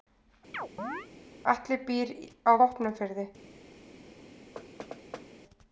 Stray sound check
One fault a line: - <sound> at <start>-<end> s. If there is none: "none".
- chirp at 0.5-1.1 s
- thud at 4.6-5.3 s